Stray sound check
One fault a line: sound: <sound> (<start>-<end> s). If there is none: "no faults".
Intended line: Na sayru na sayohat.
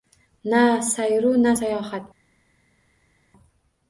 no faults